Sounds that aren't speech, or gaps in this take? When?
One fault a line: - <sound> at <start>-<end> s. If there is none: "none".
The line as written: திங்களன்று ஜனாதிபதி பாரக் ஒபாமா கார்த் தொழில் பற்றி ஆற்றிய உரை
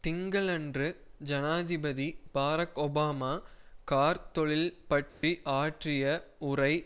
- dropout at 5.1-5.2 s